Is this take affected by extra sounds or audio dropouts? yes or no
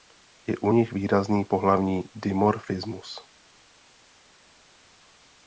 no